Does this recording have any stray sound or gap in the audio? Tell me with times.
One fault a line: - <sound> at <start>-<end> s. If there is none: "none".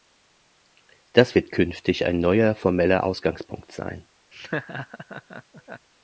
- laugh at 4.3-5.9 s